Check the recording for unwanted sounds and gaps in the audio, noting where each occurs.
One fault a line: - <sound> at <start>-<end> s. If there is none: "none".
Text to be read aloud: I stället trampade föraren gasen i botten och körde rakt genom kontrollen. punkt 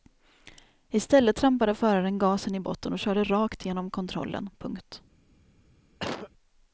- cough at 6.0-6.3 s